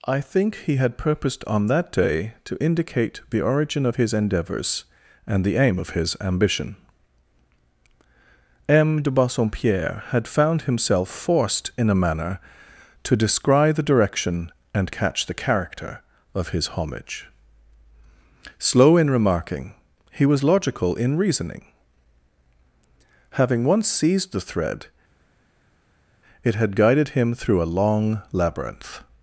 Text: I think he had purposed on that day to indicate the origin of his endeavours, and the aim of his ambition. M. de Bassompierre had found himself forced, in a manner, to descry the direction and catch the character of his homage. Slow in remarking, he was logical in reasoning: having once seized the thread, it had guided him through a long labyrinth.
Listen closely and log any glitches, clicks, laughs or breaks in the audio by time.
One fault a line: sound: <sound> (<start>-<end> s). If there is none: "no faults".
no faults